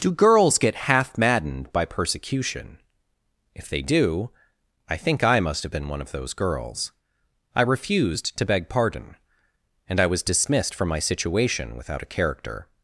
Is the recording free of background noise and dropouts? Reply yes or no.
yes